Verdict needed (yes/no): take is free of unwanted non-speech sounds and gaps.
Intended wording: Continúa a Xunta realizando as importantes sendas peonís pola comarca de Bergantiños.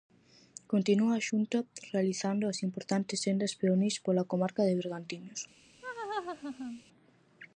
no